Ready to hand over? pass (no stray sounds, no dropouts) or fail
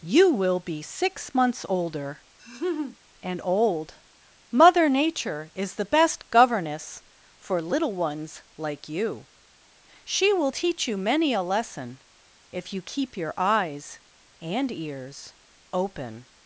fail